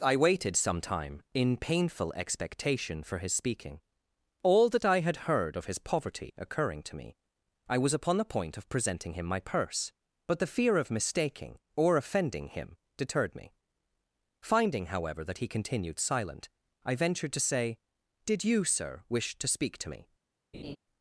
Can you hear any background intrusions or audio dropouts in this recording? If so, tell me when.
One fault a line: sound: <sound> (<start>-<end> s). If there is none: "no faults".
sound: laugh (20.5-20.8 s)